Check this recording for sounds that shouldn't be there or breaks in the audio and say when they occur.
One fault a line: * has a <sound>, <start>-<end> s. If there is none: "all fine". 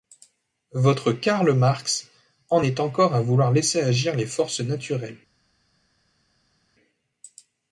all fine